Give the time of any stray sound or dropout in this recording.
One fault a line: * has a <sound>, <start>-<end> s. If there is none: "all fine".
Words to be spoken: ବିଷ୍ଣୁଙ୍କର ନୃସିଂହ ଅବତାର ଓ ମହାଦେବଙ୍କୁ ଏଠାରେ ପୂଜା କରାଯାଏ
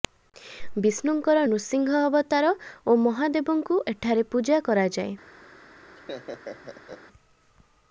* has a laugh, 6.0-7.0 s